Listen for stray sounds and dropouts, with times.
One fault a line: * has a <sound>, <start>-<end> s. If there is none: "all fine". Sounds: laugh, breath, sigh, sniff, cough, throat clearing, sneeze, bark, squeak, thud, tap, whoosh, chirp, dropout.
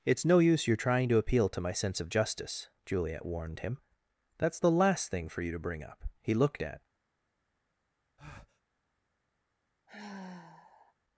* has a breath, 8.2-8.6 s
* has a sigh, 9.9-10.9 s